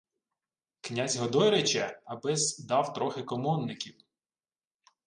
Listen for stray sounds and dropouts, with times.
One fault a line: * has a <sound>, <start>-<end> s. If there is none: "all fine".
all fine